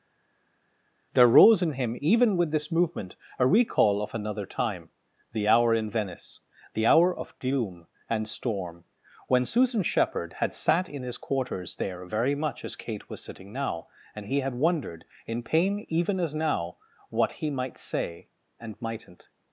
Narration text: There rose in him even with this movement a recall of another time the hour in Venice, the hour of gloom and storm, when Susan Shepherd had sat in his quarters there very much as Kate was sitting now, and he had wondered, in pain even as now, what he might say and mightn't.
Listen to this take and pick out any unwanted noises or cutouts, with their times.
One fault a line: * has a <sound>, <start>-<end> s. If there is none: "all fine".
all fine